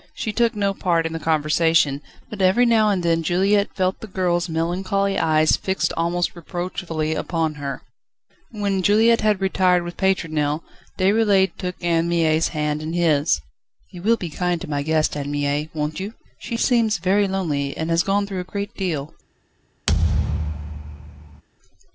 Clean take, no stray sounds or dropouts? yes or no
no